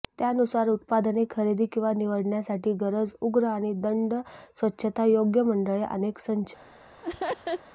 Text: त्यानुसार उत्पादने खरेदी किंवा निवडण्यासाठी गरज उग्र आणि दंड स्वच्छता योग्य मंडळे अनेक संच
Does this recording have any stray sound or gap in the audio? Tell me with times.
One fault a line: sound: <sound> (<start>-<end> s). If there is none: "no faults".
sound: laugh (7.0-7.6 s)